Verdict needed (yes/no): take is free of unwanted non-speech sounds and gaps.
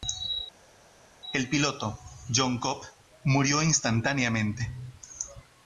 yes